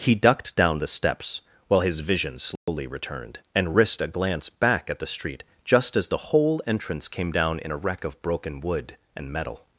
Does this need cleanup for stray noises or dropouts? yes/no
yes